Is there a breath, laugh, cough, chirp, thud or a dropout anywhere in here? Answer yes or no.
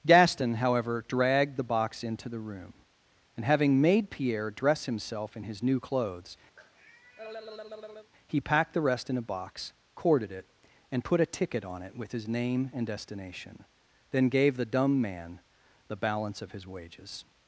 yes